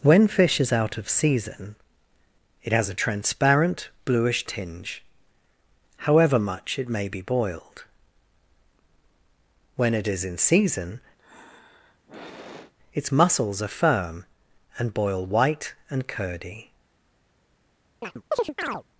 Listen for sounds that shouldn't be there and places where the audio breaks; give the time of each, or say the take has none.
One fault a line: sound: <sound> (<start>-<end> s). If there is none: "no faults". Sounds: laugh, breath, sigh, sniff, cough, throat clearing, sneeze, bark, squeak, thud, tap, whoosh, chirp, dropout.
sound: sigh (11.2-12.7 s)
sound: chirp (18.0-18.8 s)